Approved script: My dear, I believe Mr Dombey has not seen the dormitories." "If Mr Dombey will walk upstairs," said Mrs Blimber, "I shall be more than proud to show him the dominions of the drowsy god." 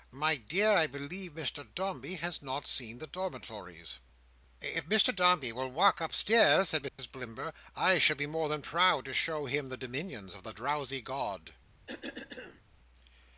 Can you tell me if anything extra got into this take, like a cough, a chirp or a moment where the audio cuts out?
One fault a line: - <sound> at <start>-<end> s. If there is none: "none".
- dropout at 6.9-7.0 s
- cough at 11.9-12.6 s